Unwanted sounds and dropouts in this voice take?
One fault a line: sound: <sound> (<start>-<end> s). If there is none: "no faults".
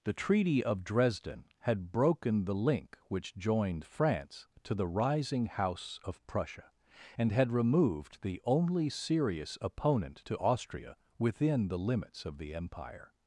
no faults